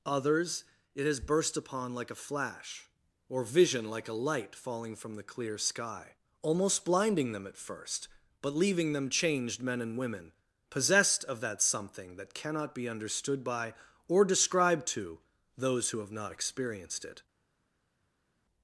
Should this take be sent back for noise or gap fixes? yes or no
no